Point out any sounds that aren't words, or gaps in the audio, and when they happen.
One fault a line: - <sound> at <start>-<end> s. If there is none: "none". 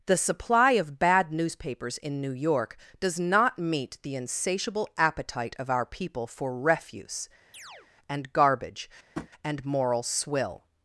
- chirp at 7.5-7.9 s
- tap at 9.1-9.3 s